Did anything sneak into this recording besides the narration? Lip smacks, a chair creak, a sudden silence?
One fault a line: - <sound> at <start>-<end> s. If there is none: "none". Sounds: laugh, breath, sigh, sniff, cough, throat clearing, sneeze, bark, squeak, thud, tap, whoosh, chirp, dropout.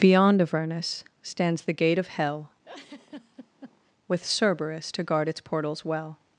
- laugh at 2.6-3.9 s